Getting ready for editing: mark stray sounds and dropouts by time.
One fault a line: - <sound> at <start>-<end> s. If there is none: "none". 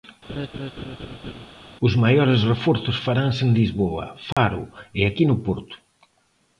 - laugh at 0.3-1.5 s
- dropout at 4.3-4.4 s